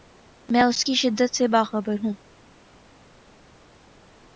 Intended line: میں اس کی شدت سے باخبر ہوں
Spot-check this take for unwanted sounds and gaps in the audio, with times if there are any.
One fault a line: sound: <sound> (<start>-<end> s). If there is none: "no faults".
no faults